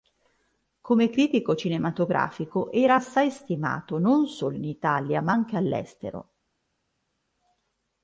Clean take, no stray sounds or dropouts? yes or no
yes